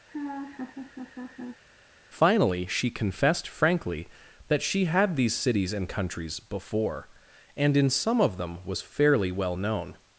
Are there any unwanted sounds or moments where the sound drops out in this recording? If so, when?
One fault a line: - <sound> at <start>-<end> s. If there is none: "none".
- laugh at 0.1-1.6 s